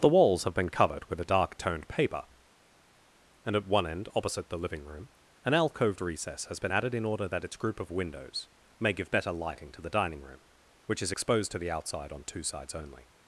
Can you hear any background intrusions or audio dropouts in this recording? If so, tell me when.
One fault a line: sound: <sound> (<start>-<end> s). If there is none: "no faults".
no faults